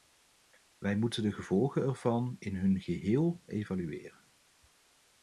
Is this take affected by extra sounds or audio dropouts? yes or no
no